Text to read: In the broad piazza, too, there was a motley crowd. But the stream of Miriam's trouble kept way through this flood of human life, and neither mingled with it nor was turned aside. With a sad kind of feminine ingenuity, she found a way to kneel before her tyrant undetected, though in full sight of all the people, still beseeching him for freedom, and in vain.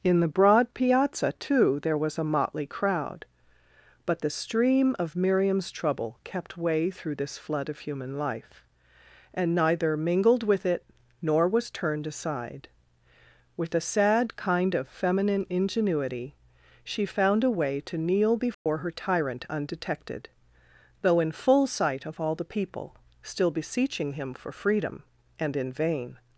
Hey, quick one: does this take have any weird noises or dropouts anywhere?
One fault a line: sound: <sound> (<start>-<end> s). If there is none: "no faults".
sound: dropout (18.5-18.7 s)